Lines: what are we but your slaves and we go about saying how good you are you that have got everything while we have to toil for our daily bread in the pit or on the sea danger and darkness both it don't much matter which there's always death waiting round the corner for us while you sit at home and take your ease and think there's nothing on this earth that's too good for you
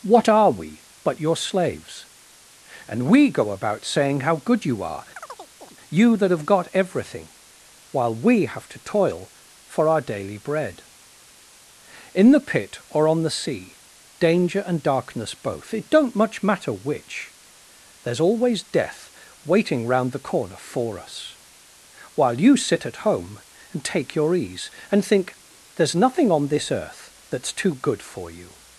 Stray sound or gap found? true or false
true